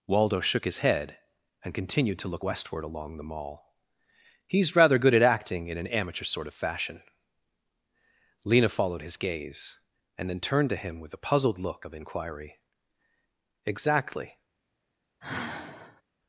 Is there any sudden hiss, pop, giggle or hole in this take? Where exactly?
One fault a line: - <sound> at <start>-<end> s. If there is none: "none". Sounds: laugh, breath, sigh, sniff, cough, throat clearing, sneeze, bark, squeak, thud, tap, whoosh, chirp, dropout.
- sigh at 15.2-16.0 s